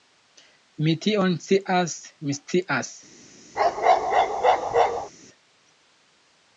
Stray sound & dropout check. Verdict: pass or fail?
fail